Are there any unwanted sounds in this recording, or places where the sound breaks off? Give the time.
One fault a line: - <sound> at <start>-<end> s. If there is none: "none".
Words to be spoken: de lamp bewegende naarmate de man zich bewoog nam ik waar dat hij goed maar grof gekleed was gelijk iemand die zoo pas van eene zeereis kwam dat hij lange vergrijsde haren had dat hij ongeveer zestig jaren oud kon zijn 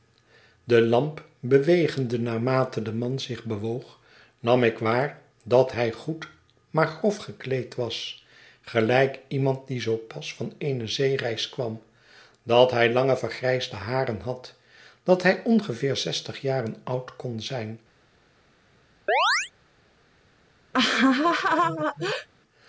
- chirp at 19.1-19.5 s
- laugh at 20.7-22.3 s